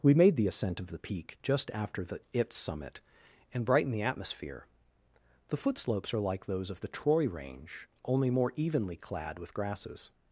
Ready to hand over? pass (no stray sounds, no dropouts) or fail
pass